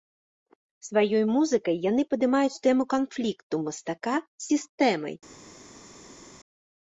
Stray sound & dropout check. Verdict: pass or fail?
pass